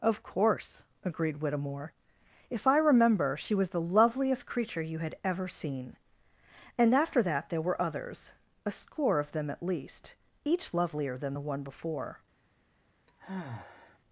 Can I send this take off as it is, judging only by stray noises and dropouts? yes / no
no